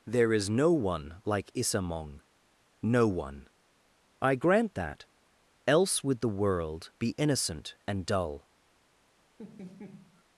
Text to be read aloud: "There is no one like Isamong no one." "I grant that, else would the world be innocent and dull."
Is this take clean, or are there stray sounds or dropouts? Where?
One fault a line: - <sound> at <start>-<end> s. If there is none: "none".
- laugh at 9.4-10.2 s